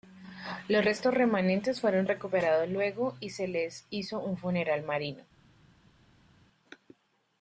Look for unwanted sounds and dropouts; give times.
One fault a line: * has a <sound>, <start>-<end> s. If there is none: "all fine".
all fine